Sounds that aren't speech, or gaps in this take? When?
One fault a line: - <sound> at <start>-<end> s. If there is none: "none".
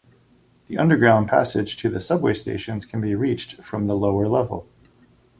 none